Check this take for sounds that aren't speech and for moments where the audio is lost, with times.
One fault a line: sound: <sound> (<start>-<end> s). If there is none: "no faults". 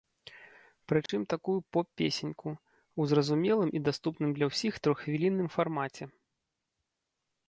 sound: dropout (1.1-1.1 s)